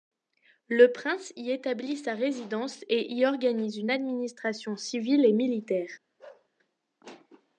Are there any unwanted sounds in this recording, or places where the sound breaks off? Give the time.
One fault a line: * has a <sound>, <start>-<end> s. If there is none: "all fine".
* has a bark, 6.2-6.5 s